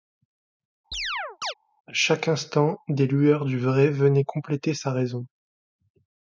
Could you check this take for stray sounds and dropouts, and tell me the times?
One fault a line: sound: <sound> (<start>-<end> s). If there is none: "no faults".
sound: chirp (0.9-1.5 s)